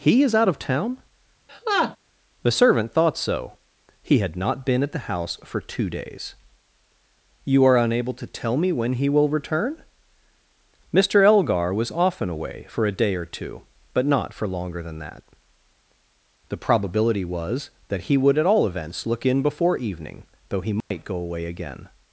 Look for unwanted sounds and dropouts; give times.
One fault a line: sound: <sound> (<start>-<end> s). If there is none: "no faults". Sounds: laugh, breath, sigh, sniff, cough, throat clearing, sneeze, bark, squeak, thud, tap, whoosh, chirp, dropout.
sound: laugh (1.5-2.0 s)
sound: dropout (20.8-20.9 s)